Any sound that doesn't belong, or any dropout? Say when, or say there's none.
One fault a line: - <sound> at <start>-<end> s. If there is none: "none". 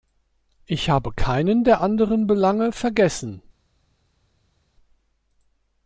none